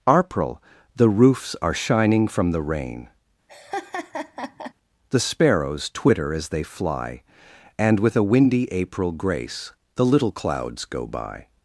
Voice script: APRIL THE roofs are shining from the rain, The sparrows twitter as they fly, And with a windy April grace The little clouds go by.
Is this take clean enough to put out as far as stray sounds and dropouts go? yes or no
no